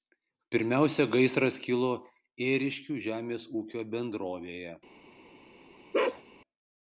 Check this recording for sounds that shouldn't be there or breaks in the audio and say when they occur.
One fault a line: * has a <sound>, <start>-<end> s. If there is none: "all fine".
* has a bark, 5.9-6.2 s